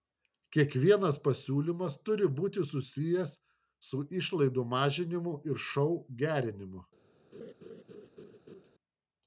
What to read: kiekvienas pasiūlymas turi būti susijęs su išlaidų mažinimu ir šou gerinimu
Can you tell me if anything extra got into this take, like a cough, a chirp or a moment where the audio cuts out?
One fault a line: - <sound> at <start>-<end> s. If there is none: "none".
- laugh at 7.3-8.7 s